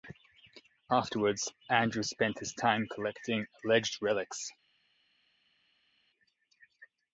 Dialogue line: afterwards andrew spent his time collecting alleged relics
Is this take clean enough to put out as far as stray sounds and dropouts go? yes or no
yes